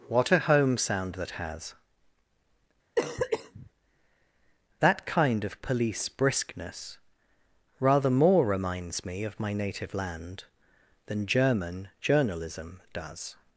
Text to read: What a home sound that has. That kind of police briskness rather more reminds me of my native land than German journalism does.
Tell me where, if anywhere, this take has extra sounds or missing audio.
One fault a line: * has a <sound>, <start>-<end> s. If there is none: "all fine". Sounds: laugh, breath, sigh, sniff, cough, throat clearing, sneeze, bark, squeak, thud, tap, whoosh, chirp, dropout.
* has a cough, 3.0-3.7 s